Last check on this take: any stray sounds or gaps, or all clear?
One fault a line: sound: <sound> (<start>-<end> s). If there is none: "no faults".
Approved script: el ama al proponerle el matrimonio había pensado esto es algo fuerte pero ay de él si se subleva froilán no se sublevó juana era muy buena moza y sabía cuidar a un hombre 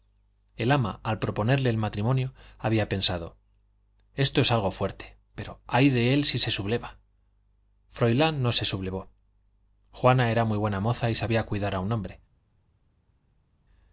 no faults